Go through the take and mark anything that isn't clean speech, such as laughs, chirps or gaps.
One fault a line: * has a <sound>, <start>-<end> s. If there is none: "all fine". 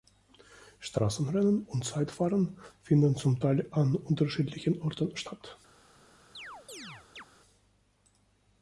* has a chirp, 6.3-7.3 s